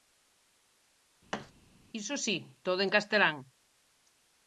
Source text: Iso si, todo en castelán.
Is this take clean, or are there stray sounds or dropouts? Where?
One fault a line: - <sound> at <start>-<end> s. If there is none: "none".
- thud at 1.3-1.5 s